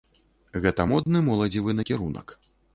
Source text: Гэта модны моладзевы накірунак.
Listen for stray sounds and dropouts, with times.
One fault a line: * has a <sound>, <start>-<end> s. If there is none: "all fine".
* has a dropout, 1.0-1.1 s